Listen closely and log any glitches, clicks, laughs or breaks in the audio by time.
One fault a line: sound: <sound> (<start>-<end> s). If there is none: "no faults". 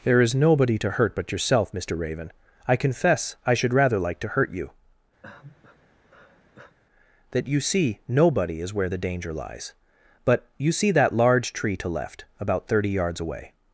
sound: sigh (5.2-6.8 s)